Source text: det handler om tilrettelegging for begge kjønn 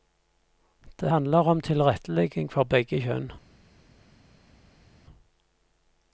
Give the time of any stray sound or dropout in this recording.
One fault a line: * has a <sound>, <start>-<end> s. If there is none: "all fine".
all fine